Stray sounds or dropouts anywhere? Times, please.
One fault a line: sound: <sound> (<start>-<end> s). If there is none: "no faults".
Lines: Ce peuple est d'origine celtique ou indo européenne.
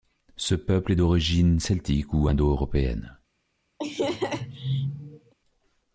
sound: laugh (3.8-5.3 s)